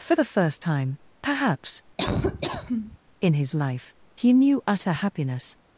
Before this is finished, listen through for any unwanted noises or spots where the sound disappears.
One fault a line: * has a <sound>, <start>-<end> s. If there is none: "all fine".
* has a laugh, 2.0-3.0 s